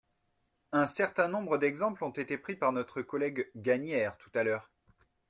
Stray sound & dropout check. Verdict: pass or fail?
pass